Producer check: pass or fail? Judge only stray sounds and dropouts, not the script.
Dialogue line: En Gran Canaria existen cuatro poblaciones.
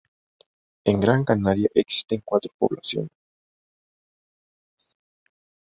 pass